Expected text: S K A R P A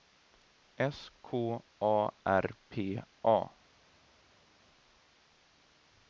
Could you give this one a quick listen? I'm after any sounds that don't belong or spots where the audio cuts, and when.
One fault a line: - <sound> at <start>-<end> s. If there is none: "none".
none